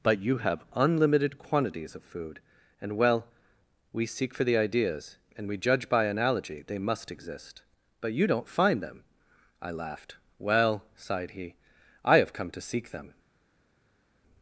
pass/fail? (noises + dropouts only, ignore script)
pass